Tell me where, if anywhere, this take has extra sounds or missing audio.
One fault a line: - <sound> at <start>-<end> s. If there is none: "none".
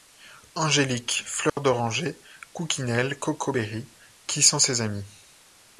- dropout at 1.5-1.6 s